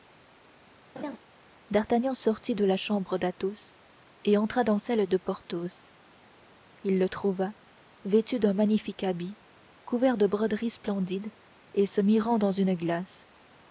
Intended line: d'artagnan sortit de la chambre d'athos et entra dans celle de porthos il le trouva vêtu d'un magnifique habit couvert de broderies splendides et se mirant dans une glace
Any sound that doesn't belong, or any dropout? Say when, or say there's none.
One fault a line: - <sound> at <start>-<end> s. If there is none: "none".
- laugh at 1.0-1.2 s